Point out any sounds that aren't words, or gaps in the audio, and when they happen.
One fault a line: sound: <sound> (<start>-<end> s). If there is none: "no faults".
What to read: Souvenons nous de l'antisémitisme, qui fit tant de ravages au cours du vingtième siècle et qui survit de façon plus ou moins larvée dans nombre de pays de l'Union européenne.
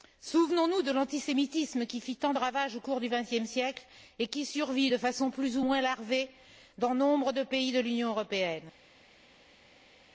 no faults